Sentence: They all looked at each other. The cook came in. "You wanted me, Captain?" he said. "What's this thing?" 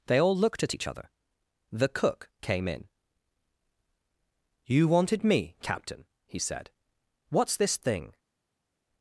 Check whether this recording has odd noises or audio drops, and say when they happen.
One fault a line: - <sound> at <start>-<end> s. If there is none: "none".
none